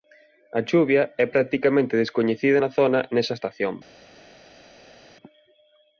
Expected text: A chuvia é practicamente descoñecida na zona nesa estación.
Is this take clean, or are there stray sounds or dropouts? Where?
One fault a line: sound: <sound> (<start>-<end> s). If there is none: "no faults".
no faults